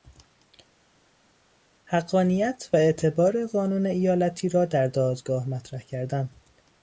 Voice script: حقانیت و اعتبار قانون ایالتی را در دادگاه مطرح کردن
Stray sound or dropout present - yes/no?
no